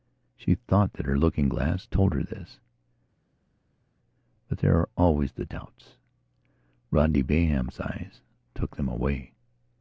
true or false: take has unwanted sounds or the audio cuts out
false